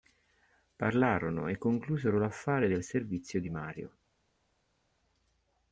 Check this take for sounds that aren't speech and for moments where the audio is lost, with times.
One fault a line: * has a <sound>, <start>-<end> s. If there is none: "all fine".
all fine